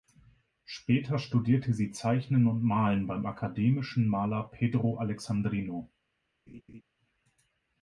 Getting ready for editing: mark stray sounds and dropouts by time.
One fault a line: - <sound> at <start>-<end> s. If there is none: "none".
- laugh at 6.5-6.8 s